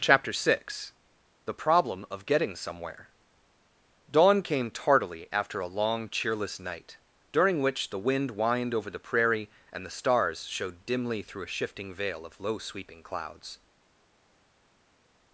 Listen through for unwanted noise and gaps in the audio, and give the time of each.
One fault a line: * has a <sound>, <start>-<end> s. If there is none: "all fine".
all fine